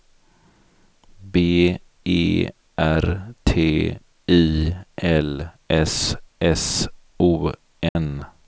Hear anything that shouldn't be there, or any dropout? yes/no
yes